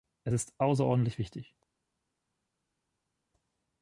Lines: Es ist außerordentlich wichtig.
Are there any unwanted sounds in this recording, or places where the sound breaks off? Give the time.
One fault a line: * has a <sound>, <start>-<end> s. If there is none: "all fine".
all fine